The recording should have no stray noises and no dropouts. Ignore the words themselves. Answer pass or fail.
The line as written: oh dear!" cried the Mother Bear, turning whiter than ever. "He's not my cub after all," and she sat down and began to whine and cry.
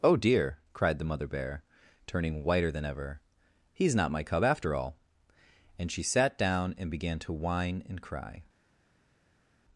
pass